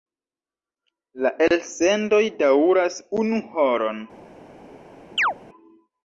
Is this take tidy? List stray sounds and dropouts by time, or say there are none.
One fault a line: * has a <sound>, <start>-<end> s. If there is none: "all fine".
* has a chirp, 5.2-5.3 s